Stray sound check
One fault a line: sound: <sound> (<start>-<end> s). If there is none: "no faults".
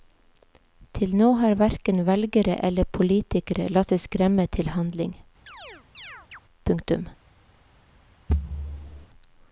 sound: chirp (5.5-6.4 s)
sound: thud (8.3-9.1 s)